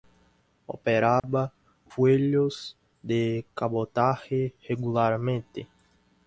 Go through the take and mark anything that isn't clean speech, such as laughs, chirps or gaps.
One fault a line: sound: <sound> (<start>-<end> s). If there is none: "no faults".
sound: dropout (1.2-1.2 s)